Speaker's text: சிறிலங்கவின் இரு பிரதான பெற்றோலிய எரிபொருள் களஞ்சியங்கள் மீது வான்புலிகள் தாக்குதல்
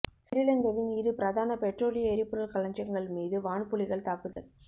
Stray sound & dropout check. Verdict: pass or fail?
fail